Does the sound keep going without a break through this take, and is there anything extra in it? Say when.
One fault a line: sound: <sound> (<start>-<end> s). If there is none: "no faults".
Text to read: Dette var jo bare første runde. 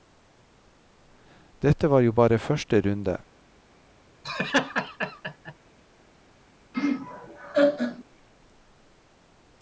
sound: laugh (4.2-5.5 s)
sound: laugh (6.7-8.0 s)